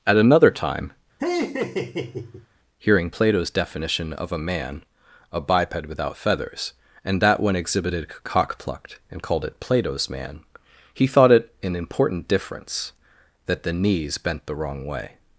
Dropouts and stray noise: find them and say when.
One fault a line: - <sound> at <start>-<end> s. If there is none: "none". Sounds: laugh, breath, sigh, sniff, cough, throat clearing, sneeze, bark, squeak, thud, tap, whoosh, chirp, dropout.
- laugh at 1.2-2.5 s